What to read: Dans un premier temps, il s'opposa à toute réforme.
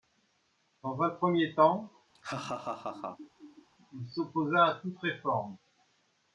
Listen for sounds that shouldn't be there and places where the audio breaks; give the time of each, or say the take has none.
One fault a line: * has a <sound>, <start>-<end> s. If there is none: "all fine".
* has a laugh, 2.1-3.7 s